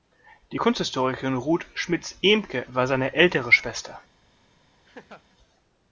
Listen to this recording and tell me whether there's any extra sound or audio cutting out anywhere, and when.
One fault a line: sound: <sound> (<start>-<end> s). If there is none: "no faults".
sound: laugh (4.8-5.3 s)